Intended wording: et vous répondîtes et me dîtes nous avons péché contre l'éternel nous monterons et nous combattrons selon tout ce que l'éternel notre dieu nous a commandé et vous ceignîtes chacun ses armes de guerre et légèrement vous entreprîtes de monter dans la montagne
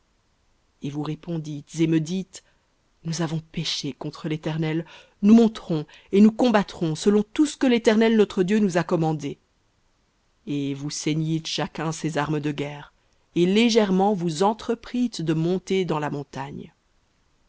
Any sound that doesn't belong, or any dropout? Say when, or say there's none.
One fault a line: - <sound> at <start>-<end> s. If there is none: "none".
none